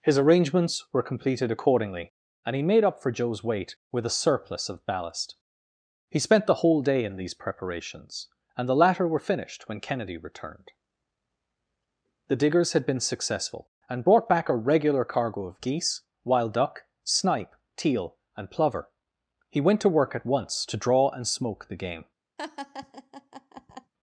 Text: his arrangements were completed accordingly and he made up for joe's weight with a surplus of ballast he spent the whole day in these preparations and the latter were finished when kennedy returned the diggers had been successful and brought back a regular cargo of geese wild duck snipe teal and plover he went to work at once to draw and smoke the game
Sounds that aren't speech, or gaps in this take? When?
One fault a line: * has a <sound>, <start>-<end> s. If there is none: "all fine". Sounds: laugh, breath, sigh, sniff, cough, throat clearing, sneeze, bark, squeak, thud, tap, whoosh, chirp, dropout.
* has a laugh, 22.4-23.9 s